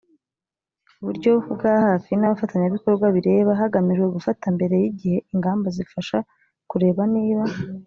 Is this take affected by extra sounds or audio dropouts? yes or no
no